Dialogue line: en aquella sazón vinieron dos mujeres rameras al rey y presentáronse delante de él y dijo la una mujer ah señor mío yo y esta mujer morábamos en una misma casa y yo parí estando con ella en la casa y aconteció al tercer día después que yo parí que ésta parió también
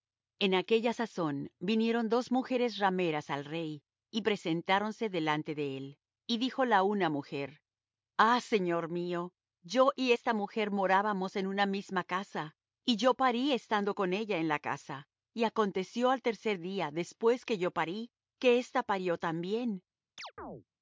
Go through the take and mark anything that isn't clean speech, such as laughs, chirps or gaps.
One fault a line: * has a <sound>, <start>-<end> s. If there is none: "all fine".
* has a chirp, 20.2-20.6 s